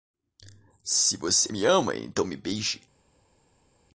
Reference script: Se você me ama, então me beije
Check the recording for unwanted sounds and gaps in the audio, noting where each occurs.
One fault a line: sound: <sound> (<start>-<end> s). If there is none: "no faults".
no faults